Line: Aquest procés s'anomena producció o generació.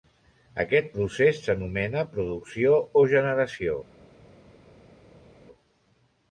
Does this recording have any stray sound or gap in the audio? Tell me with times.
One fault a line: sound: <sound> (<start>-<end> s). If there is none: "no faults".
no faults